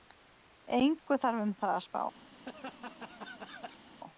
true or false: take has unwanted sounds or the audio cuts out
true